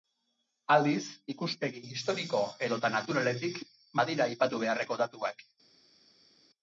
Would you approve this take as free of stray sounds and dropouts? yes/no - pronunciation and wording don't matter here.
yes